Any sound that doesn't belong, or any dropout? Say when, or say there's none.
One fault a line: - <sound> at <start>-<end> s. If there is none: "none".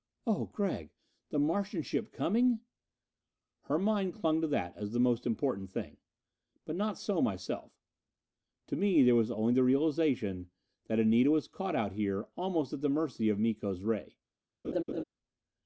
- laugh at 14.6-15.0 s